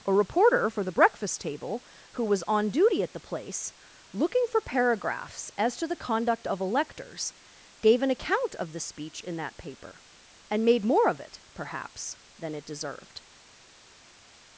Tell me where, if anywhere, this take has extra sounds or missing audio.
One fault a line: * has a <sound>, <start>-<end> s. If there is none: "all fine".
all fine